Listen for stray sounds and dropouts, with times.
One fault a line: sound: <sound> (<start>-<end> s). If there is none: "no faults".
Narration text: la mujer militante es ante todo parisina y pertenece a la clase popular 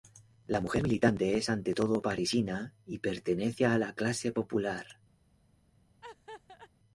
sound: laugh (6.0-6.7 s)